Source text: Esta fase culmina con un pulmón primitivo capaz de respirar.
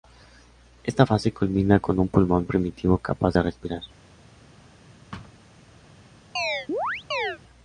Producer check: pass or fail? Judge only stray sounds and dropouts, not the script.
fail